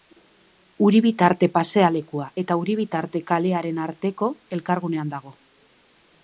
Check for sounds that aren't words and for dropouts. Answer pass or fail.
pass